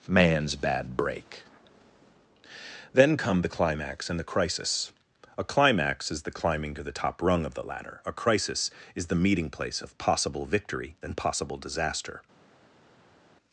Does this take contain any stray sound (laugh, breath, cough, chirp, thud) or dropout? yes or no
no